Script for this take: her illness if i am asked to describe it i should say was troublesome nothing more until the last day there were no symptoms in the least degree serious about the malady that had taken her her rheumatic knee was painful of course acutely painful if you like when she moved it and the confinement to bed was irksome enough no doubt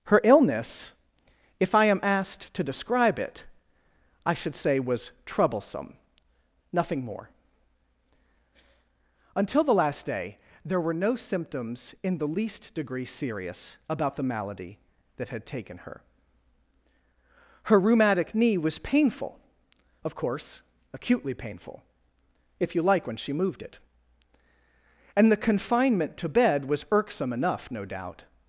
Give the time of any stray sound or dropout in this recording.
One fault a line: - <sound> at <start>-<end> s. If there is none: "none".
none